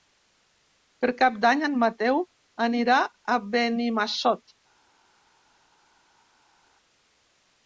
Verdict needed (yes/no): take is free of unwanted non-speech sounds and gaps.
yes